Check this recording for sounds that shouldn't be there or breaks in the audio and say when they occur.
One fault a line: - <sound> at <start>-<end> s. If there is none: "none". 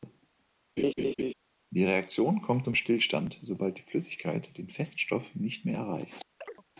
- laugh at 0.8-1.3 s
- chirp at 6.4-6.6 s